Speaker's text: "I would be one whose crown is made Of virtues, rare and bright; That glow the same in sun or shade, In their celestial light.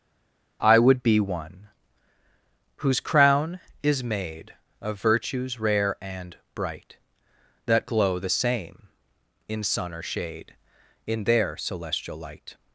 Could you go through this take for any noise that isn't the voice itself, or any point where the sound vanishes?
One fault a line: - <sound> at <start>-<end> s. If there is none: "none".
none